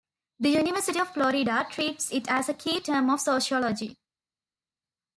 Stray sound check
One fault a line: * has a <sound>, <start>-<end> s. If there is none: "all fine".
all fine